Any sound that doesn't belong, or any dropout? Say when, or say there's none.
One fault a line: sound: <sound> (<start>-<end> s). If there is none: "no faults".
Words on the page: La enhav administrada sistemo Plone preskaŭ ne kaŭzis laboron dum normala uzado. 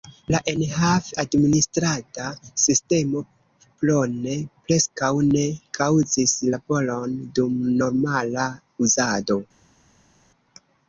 no faults